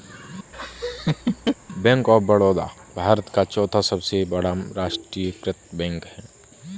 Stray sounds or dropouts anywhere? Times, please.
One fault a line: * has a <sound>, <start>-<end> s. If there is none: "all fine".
* has a laugh, 0.5-1.6 s